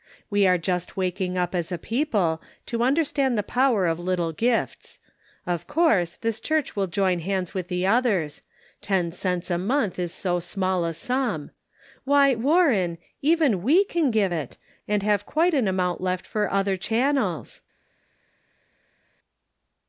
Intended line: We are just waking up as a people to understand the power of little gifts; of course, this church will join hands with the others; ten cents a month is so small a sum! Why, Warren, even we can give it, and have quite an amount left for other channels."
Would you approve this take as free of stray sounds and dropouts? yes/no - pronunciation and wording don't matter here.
yes